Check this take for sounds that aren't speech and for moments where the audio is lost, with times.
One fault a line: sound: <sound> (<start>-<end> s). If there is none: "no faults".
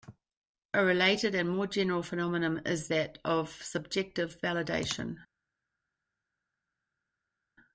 no faults